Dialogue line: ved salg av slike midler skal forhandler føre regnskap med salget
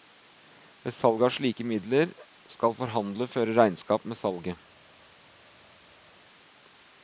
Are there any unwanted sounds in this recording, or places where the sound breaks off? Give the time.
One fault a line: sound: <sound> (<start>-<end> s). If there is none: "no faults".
no faults